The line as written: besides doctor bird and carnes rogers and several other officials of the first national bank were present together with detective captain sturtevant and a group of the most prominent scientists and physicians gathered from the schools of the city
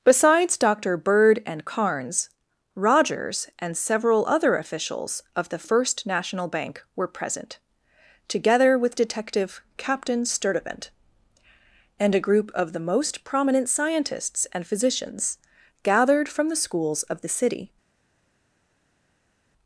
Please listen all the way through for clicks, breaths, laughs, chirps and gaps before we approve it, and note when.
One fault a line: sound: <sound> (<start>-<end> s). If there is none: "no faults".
no faults